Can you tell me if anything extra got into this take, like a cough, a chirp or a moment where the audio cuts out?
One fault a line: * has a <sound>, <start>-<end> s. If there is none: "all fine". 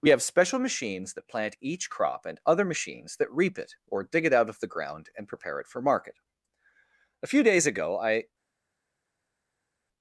all fine